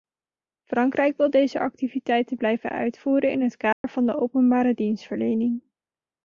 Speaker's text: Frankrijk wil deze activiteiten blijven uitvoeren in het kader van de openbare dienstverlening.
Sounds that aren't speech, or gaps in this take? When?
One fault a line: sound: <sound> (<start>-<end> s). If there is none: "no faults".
sound: dropout (3.7-3.8 s)